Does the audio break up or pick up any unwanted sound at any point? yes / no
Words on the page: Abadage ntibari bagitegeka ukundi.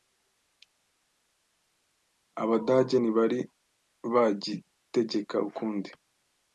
no